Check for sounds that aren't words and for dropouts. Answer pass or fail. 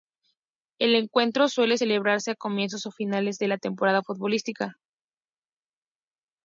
pass